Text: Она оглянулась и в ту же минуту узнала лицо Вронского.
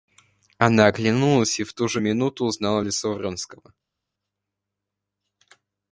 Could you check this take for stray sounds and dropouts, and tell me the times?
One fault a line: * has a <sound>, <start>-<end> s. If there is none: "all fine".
all fine